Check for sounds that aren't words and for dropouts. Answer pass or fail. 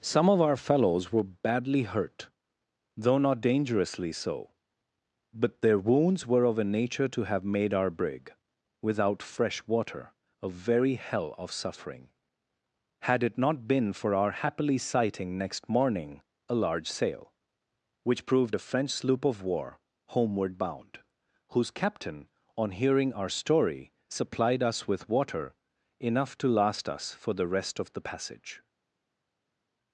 pass